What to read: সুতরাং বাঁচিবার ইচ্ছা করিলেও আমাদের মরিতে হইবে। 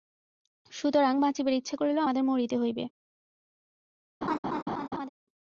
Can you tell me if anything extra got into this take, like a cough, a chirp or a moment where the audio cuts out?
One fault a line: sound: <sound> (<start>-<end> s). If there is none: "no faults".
sound: laugh (4.2-5.1 s)